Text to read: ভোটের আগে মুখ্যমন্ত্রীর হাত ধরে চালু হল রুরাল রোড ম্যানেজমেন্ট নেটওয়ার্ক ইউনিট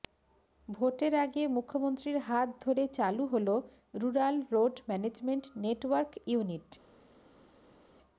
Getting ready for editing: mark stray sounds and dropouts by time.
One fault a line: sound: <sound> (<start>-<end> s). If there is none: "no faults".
no faults